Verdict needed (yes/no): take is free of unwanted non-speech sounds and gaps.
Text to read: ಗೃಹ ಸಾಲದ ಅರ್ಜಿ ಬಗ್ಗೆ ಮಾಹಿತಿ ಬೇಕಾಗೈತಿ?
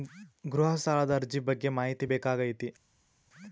yes